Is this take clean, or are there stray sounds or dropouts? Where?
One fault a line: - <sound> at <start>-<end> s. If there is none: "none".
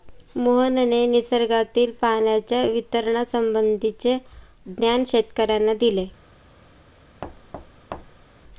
- thud at 7.2-8.3 s